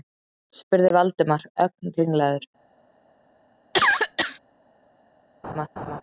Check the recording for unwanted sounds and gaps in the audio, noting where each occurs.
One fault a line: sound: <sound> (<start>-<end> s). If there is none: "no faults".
sound: cough (3.7-4.4 s)
sound: laugh (5.4-6.0 s)